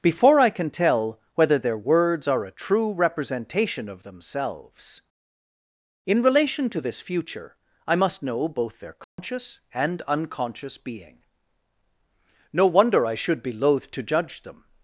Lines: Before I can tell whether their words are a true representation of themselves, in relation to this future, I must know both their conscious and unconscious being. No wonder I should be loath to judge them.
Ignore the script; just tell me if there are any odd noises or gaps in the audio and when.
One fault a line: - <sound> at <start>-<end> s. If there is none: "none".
- dropout at 9.0-9.2 s